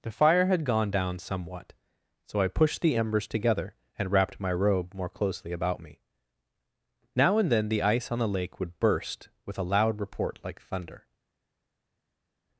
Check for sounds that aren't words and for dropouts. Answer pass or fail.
pass